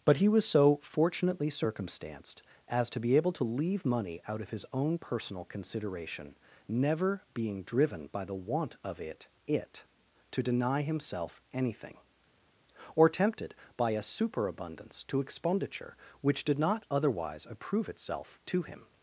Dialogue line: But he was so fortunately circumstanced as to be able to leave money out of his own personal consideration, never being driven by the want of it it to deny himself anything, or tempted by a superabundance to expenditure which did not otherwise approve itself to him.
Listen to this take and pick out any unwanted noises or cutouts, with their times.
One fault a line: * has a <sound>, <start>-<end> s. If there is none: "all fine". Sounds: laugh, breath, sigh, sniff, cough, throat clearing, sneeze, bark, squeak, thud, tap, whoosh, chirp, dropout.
all fine